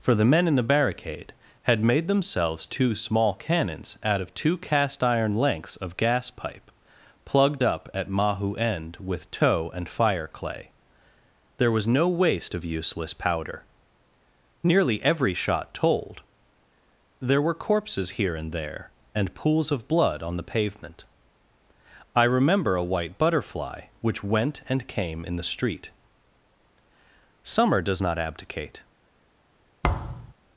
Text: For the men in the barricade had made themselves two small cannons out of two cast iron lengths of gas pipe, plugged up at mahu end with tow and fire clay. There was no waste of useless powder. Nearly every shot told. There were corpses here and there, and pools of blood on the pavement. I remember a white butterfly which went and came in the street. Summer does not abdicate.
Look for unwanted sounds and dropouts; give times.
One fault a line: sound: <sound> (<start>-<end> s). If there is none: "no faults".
sound: thud (29.8-30.3 s)